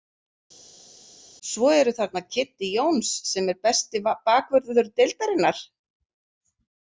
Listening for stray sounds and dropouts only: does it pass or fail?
pass